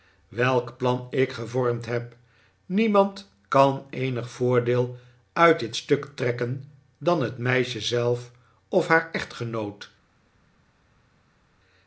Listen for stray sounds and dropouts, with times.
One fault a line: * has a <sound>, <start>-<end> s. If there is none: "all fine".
all fine